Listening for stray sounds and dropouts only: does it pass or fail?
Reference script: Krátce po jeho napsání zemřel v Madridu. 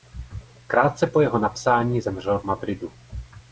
pass